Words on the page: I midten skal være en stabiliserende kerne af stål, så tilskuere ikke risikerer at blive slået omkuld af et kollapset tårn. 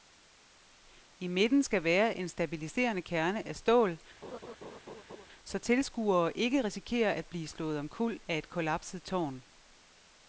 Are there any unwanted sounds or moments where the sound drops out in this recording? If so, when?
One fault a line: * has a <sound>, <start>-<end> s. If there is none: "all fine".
* has a laugh, 4.2-5.3 s